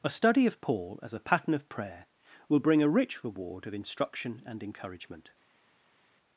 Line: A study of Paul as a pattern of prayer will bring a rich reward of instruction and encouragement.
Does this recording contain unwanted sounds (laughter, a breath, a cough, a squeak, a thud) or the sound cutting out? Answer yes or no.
no